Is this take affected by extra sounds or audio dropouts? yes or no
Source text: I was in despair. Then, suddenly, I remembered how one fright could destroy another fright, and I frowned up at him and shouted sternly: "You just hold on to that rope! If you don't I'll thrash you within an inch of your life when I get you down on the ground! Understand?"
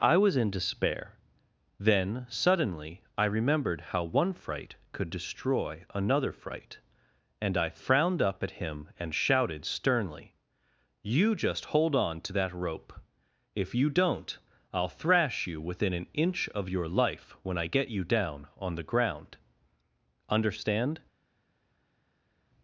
no